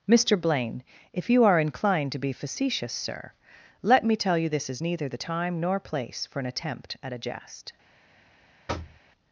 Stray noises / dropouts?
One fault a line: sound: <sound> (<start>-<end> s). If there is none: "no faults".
sound: thud (8.7-9.0 s)